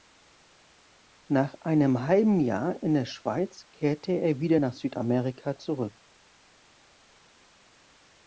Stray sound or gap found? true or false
false